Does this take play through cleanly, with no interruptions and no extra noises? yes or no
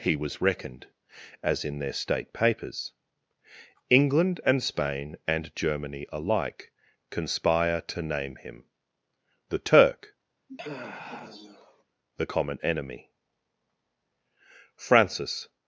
no